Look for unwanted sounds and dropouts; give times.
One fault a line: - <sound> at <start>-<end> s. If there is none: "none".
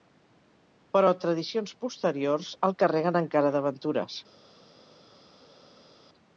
none